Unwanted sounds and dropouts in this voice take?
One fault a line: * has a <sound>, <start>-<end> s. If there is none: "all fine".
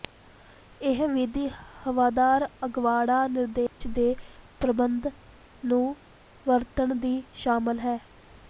* has a dropout, 3.7-3.8 s